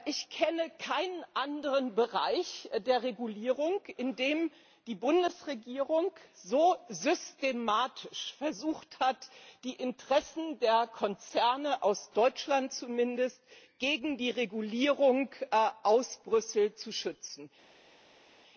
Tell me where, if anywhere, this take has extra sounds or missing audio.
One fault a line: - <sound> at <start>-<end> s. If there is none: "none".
none